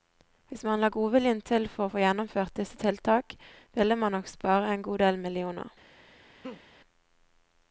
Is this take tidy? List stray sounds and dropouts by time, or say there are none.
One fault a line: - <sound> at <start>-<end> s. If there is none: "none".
- laugh at 6.4-6.6 s